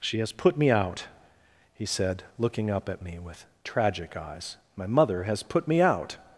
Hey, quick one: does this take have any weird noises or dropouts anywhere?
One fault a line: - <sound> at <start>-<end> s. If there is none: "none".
none